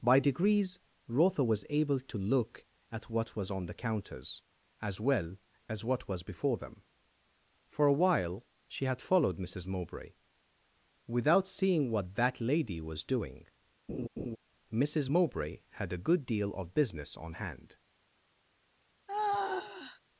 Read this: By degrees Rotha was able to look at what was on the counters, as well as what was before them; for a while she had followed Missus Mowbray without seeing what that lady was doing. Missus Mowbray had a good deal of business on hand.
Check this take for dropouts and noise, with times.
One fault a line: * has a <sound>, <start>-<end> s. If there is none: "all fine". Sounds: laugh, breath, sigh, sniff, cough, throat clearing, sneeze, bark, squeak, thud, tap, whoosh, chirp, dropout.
* has a laugh, 13.9-14.4 s
* has a sigh, 19.1-20.0 s